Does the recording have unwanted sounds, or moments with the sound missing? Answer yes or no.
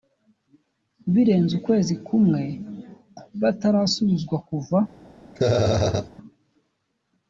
yes